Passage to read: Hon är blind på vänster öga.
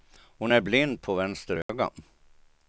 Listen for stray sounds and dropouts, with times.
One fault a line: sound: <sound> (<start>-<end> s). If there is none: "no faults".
sound: dropout (1.6-1.7 s)